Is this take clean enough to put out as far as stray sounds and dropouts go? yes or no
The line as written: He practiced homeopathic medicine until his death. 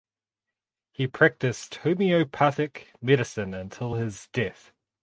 yes